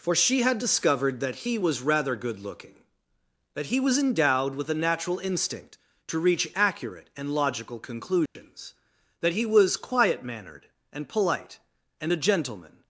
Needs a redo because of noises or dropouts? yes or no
yes